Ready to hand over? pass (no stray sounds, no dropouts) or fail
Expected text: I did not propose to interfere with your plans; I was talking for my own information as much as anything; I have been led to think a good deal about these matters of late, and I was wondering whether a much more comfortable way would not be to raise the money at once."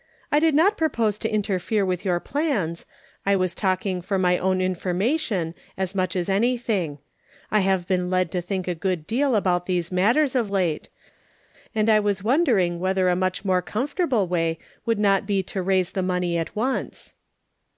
pass